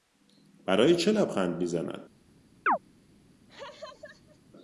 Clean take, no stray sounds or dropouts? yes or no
no